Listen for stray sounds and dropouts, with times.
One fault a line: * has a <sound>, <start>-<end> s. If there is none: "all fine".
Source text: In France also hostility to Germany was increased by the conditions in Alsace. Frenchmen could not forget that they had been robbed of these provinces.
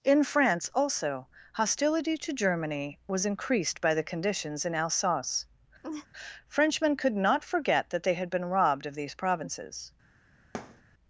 * has a laugh, 5.8-6.1 s
* has a thud, 10.5-10.8 s